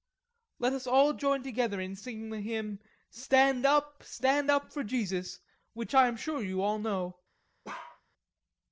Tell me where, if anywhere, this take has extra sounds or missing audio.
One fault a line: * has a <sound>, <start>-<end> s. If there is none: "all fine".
* has a bark, 7.6-8.0 s